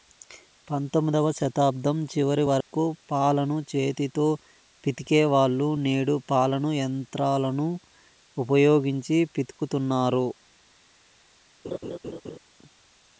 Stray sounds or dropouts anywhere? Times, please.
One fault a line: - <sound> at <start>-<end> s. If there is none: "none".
- dropout at 2.6-2.7 s
- laugh at 11.6-12.4 s